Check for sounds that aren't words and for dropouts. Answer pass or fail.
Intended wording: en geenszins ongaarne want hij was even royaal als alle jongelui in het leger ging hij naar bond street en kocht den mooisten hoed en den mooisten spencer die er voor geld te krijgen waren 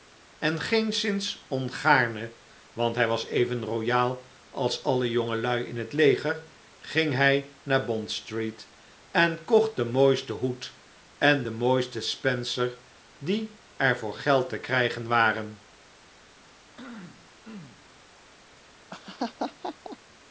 fail